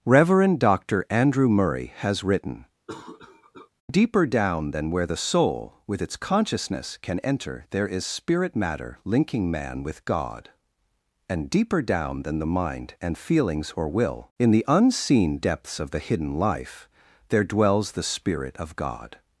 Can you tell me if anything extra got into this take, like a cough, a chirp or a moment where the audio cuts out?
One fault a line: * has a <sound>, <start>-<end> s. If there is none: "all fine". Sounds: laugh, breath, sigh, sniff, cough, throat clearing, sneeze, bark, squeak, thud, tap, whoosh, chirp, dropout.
* has a cough, 2.9-3.7 s